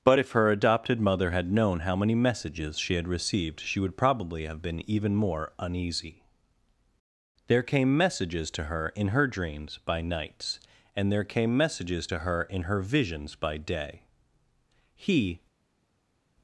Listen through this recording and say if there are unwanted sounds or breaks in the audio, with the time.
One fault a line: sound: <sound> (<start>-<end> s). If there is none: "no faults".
no faults